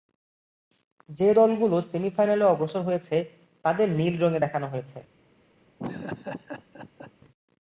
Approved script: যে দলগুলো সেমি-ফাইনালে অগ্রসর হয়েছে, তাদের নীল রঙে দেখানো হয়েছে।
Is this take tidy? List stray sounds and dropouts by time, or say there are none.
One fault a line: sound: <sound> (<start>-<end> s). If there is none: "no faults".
sound: laugh (5.8-7.1 s)